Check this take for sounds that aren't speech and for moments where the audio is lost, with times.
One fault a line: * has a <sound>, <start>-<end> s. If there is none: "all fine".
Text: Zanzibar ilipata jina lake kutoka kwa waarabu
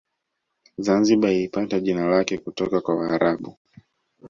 all fine